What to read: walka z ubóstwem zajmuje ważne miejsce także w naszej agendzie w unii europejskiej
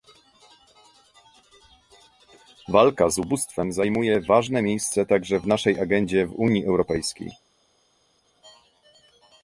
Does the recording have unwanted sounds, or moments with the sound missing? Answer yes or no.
no